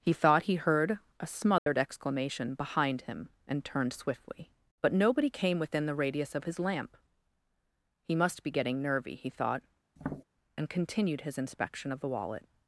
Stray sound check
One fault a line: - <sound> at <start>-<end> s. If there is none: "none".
- dropout at 1.6-1.7 s
- tap at 10.0-10.2 s